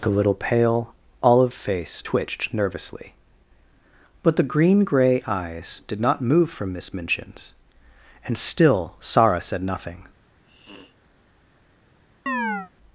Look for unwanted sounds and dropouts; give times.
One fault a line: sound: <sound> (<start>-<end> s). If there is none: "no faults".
sound: sniff (10.4-11.0 s)
sound: chirp (12.3-12.7 s)